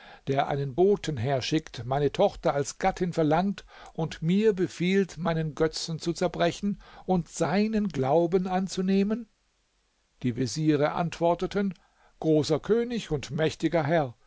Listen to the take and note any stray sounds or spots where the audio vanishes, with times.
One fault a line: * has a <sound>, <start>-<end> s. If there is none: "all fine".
all fine